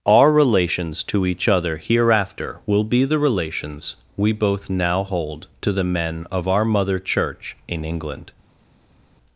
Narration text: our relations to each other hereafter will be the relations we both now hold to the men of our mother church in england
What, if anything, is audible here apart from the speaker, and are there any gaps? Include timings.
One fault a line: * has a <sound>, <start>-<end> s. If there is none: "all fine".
all fine